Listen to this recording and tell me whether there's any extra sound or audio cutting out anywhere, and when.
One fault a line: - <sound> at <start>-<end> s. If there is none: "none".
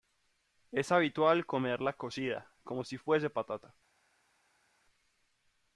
none